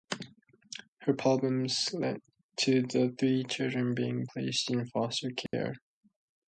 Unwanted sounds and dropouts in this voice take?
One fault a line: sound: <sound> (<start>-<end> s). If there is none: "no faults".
sound: dropout (5.5-5.5 s)